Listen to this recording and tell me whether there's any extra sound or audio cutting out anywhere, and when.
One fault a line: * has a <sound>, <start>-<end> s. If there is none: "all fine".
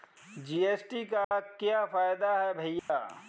* has a dropout, 1.2-1.3 s
* has a dropout, 2.8-2.9 s